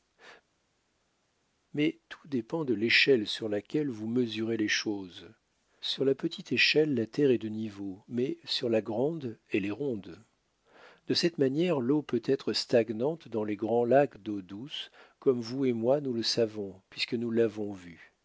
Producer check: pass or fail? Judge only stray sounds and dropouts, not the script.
pass